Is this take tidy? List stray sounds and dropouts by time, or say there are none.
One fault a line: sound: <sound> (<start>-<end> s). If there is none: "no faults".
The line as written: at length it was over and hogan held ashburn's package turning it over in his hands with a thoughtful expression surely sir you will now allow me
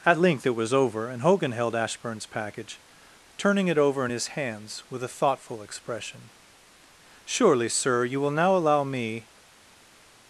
no faults